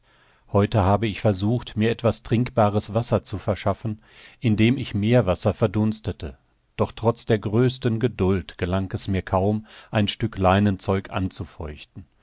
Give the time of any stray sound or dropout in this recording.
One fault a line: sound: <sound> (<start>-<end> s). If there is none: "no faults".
no faults